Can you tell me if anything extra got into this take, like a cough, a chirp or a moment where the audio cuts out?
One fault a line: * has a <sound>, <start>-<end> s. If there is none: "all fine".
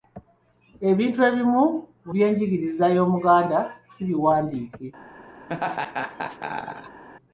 * has a laugh, 5.5-7.0 s